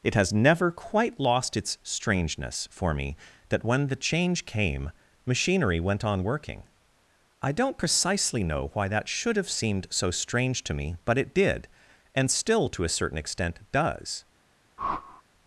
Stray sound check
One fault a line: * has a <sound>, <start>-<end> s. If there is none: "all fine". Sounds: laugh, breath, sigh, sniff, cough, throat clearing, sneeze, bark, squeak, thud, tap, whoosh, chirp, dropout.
* has a whoosh, 14.8-15.2 s